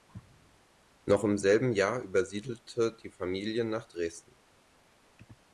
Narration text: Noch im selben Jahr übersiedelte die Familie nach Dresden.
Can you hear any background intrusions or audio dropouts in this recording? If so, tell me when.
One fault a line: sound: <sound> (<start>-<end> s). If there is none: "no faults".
no faults